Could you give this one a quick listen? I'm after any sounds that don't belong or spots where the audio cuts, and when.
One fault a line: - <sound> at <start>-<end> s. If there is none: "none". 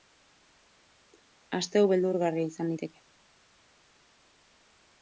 none